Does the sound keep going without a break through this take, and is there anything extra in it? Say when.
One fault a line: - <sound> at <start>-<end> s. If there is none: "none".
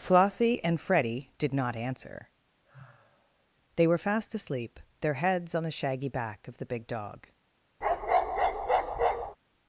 - sigh at 2.6-3.5 s
- bark at 7.8-9.4 s